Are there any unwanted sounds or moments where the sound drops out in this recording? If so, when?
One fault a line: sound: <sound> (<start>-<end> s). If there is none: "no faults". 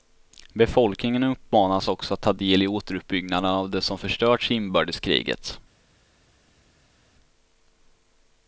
no faults